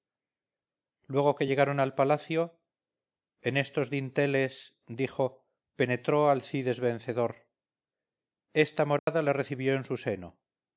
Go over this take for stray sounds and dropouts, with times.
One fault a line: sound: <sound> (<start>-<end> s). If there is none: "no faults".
sound: dropout (9.0-9.1 s)